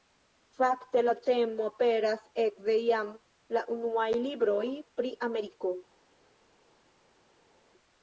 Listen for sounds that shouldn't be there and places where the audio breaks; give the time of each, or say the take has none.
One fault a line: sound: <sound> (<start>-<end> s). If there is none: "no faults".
no faults